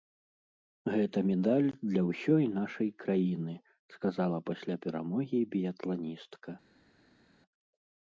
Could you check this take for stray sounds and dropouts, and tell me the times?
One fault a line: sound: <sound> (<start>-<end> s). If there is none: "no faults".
no faults